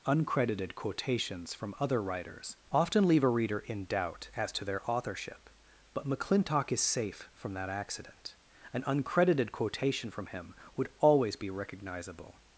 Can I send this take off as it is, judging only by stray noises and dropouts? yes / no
yes